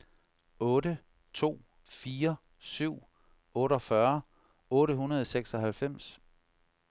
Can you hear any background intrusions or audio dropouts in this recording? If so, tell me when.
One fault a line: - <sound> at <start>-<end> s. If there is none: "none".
none